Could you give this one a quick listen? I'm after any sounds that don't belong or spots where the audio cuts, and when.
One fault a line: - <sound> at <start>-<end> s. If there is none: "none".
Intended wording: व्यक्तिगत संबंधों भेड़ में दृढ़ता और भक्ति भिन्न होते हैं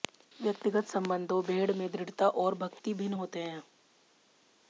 none